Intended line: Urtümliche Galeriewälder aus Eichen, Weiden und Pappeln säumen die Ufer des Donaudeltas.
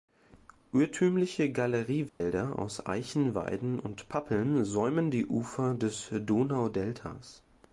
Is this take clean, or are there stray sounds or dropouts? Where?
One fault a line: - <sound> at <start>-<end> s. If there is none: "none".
- dropout at 2.1-2.2 s